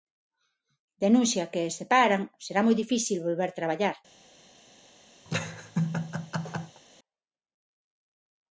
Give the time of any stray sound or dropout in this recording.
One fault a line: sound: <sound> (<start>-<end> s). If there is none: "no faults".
sound: laugh (5.3-6.8 s)